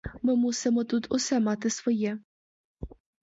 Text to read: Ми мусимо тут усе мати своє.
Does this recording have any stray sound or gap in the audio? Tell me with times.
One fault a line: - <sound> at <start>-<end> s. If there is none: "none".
none